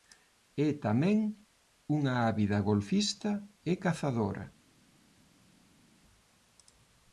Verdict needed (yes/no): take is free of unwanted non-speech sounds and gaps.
yes